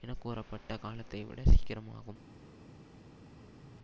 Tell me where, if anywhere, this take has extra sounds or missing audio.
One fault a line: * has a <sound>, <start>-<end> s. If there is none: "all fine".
all fine